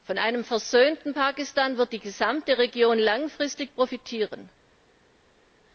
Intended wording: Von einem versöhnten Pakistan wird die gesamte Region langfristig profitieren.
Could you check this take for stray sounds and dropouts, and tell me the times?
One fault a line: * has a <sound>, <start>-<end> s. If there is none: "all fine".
all fine